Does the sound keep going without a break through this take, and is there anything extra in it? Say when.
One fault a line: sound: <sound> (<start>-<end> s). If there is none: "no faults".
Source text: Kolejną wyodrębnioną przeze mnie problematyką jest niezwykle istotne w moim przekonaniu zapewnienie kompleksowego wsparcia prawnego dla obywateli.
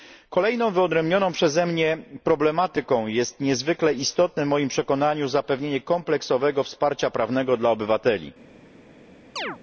sound: chirp (9.4-9.6 s)